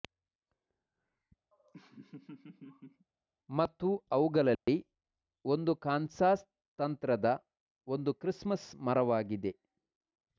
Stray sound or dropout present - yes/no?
yes